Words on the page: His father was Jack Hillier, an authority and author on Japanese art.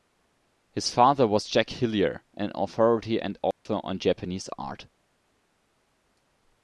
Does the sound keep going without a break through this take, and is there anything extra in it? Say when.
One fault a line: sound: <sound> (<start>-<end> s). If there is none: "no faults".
sound: dropout (3.5-3.7 s)